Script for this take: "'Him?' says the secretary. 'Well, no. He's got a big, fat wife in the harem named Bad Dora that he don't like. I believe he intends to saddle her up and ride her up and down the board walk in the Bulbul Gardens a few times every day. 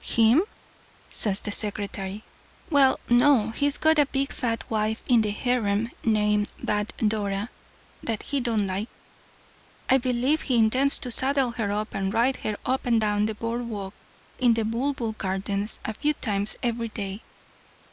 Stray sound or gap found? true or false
false